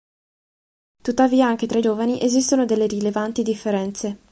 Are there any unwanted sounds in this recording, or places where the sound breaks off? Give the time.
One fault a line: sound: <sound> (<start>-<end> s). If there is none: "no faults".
no faults